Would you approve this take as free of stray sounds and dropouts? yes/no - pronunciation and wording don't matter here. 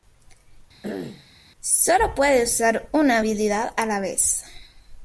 no